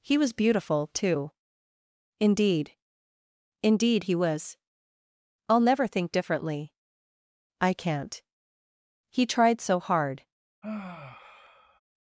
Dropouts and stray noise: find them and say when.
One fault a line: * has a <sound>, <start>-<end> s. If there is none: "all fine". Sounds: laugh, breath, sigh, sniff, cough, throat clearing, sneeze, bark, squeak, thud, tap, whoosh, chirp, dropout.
* has a sigh, 10.6-11.8 s